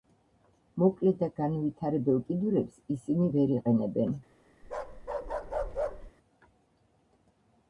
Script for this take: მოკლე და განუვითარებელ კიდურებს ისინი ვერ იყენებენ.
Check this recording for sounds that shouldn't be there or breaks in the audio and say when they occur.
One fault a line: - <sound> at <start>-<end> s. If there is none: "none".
- bark at 4.6-6.1 s